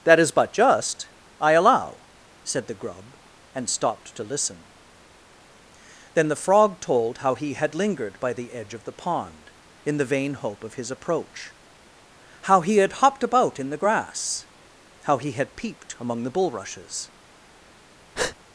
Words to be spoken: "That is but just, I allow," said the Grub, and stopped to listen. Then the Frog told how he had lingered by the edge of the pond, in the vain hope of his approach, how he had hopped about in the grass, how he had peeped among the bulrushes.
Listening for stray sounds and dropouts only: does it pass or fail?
fail